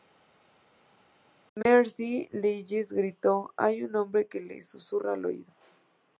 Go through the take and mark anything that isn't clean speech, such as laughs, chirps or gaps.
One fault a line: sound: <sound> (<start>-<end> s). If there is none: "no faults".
no faults